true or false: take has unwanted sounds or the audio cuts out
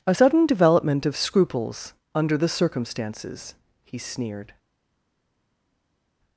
false